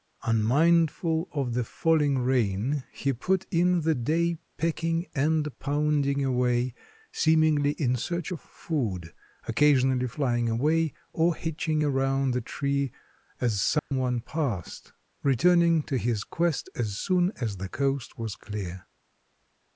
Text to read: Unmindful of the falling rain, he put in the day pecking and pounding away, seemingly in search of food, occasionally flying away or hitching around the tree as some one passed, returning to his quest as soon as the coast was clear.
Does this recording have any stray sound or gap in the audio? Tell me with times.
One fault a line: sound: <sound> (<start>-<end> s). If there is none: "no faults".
sound: dropout (13.8-13.9 s)